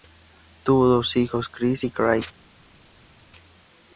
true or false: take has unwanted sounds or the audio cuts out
false